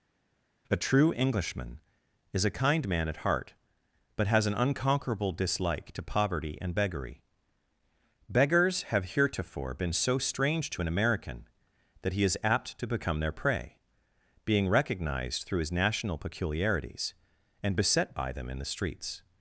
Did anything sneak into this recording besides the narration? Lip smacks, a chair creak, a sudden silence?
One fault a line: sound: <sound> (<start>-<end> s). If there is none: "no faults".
no faults